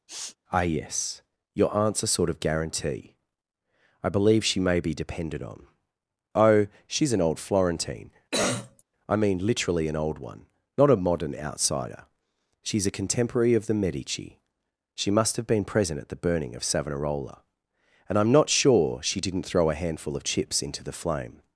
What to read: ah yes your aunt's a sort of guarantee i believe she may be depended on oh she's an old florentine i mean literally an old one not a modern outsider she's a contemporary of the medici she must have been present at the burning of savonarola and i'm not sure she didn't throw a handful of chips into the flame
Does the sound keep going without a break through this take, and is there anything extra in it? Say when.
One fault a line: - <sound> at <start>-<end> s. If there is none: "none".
- sniff at 0.1-0.4 s
- cough at 8.3-8.8 s